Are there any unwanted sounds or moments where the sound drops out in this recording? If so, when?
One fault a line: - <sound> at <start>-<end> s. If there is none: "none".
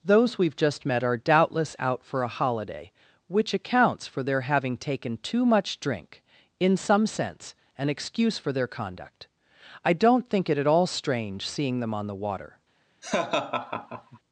- laugh at 13.0-14.2 s